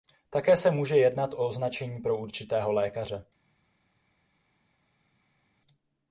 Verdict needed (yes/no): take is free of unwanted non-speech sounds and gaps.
yes